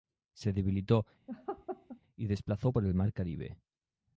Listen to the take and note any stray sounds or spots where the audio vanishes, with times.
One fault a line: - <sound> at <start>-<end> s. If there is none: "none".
- laugh at 1.3-2.0 s